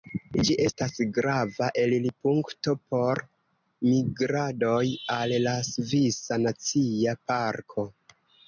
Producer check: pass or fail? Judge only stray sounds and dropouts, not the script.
pass